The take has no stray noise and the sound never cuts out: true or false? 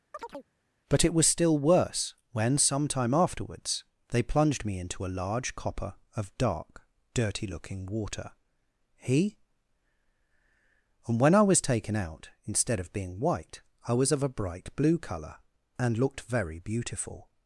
false